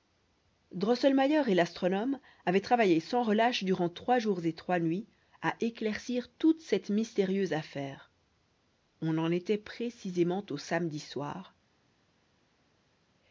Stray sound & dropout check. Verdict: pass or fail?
pass